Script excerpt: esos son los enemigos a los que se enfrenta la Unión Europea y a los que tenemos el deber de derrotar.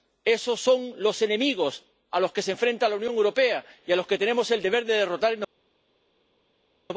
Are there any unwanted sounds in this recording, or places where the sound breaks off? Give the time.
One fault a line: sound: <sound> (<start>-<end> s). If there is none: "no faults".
no faults